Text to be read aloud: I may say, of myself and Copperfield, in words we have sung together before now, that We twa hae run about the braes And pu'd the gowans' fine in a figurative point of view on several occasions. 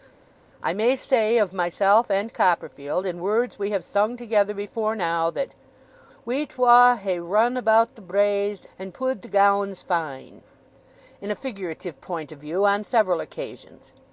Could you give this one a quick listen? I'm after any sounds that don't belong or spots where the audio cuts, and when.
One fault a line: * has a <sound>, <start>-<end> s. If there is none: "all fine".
all fine